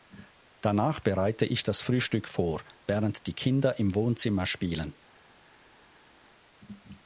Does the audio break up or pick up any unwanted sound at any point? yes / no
no